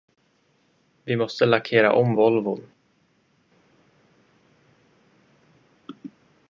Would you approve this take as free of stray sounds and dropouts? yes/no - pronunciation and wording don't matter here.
yes